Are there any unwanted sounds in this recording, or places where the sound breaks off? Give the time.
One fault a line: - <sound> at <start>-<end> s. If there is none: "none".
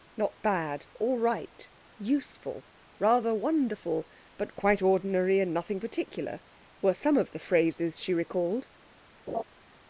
- laugh at 9.3-9.4 s